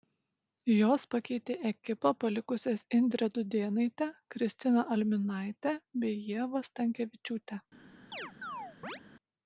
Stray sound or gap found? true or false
true